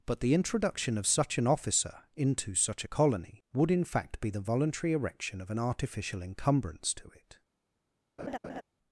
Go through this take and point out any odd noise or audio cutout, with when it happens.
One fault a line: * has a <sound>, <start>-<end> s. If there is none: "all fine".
* has a laugh, 8.2-8.6 s